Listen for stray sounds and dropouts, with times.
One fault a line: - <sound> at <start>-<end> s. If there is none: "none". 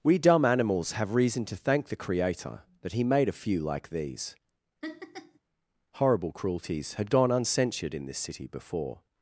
- laugh at 4.8-5.4 s